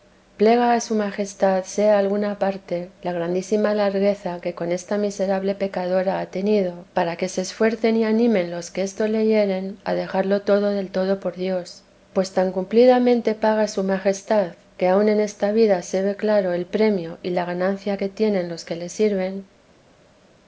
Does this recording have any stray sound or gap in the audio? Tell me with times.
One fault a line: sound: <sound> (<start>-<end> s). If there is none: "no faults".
no faults